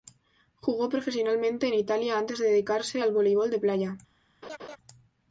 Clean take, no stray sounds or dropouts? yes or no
no